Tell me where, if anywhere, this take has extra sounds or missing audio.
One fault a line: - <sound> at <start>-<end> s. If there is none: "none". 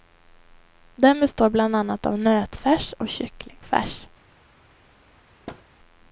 - thud at 5.5-5.6 s